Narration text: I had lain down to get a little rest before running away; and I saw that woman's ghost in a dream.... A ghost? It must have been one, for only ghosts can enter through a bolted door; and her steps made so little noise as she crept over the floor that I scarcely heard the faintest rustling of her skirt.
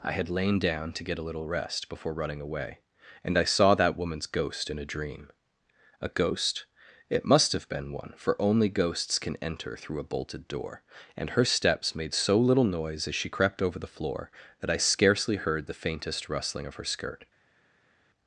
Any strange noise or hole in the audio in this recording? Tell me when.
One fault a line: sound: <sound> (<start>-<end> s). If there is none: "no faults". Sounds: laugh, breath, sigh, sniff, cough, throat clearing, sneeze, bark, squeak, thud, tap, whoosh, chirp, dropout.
no faults